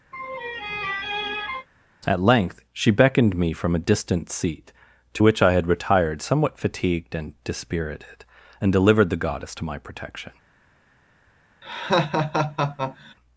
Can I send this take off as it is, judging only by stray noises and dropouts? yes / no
no